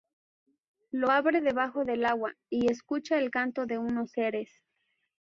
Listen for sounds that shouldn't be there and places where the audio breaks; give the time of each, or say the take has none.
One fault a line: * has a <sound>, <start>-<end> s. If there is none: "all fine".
all fine